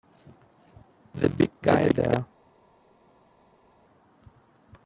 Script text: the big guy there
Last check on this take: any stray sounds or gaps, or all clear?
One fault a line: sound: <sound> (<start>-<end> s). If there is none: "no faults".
no faults